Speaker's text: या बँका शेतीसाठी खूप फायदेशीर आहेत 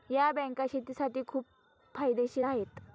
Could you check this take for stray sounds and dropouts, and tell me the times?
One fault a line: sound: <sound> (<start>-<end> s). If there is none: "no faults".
no faults